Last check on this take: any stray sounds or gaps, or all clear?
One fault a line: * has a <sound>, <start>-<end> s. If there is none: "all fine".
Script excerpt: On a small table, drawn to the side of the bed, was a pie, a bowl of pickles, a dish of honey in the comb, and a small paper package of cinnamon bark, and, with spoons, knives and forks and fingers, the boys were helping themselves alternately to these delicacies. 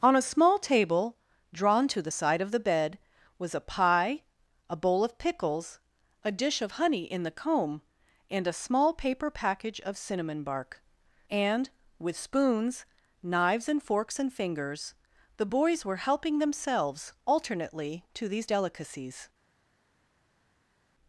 all fine